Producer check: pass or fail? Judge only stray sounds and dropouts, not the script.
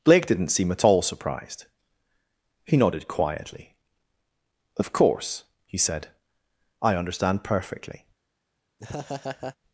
fail